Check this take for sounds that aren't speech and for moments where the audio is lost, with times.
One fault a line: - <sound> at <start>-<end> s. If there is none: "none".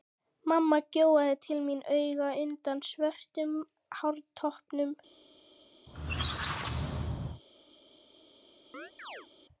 - squeak at 5.9-7.4 s
- chirp at 8.7-9.3 s